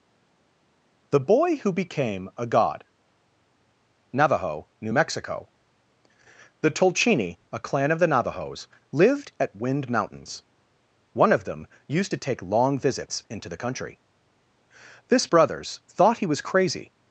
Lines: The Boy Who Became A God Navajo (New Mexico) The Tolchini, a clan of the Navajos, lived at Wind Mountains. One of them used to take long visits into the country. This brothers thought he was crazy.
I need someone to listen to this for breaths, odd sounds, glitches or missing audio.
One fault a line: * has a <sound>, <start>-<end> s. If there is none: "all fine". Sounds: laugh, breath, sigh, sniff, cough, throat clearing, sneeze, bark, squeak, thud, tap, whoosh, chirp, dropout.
all fine